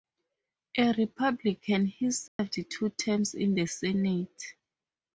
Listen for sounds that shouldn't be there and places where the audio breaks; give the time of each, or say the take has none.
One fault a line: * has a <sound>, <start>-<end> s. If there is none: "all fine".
* has a dropout, 2.3-2.4 s